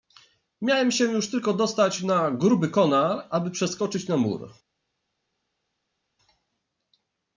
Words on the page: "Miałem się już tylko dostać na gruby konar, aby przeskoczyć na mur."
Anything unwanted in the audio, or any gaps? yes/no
no